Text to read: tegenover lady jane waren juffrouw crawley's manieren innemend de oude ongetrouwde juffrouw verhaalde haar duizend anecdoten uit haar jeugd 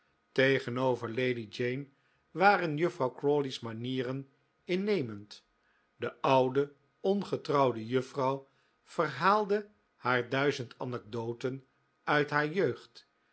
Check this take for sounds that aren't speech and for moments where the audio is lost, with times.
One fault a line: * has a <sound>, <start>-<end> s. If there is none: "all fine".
all fine